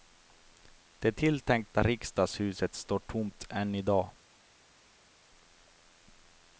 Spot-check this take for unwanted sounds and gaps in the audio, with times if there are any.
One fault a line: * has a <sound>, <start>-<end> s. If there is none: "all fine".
all fine